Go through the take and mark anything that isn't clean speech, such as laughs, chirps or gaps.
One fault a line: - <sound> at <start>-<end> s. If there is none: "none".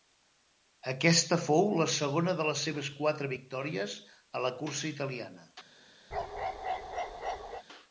- bark at 6.1-7.6 s